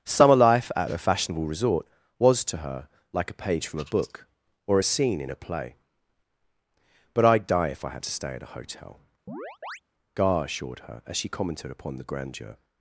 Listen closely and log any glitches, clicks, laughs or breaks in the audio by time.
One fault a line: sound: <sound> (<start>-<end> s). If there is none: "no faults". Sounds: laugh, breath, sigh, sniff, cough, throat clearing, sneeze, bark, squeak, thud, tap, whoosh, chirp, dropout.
sound: chirp (9.3-9.8 s)